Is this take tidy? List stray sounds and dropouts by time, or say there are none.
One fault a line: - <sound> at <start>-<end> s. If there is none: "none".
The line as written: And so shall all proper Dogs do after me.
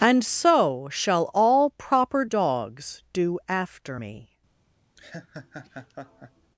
- laugh at 5.0-6.5 s